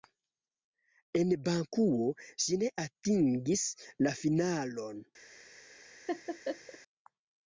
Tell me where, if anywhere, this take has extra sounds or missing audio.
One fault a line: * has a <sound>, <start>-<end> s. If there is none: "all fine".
* has a laugh, 6.1-6.8 s